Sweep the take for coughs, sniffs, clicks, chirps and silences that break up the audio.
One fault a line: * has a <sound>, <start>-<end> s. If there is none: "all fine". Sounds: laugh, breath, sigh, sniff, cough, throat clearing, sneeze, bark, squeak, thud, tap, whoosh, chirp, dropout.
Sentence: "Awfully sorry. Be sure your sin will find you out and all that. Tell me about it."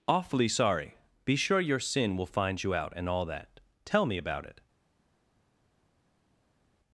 all fine